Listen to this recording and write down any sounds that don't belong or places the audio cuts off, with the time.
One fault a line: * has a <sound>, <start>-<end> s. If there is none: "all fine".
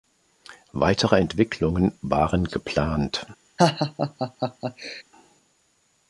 * has a laugh, 3.6-5.0 s